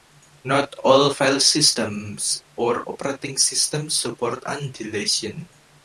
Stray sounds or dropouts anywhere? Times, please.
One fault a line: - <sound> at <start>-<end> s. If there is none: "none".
none